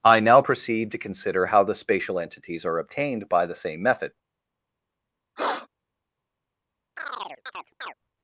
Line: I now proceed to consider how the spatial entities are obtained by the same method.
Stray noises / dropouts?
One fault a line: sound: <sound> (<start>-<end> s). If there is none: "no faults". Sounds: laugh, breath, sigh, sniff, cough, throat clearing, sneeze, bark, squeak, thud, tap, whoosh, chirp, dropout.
sound: sniff (5.4-5.7 s)
sound: chirp (7.0-7.9 s)